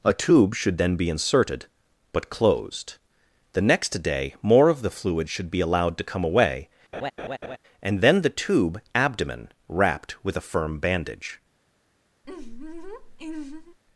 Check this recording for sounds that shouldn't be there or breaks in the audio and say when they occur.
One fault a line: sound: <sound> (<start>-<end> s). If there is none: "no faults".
sound: laugh (6.9-7.6 s)
sound: laugh (12.2-13.8 s)